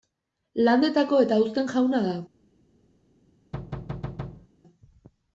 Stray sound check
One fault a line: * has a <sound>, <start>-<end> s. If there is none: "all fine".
* has a thud, 3.5-4.5 s